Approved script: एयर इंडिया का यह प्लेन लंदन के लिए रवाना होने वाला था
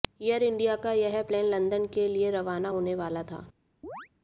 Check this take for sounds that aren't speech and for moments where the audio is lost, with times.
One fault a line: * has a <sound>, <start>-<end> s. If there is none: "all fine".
* has a chirp, 3.8-4.1 s